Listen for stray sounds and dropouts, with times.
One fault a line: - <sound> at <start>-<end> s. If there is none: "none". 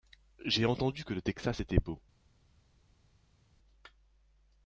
none